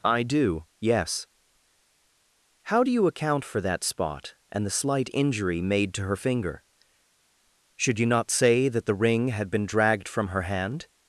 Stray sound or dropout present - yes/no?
no